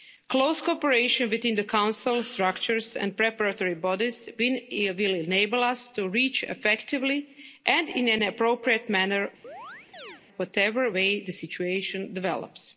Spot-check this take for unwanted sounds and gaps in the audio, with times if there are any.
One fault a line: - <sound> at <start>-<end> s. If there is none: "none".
- chirp at 9.4-10.2 s